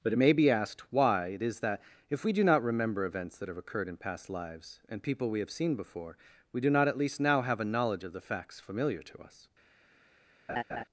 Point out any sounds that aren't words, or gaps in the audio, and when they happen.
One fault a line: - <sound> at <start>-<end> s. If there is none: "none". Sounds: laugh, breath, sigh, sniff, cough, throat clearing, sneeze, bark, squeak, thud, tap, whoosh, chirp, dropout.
- laugh at 10.5-10.8 s